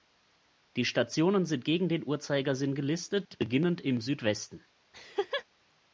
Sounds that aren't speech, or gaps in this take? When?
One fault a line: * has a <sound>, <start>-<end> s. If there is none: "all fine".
* has a laugh, 4.9-5.4 s